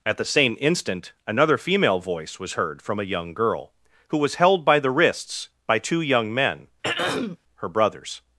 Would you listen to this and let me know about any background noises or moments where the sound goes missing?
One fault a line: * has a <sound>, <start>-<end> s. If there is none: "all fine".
* has a throat clearing, 6.8-7.4 s